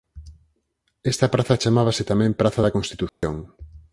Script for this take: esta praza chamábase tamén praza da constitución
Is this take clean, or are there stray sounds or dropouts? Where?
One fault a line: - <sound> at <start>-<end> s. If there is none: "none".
- dropout at 3.1-3.2 s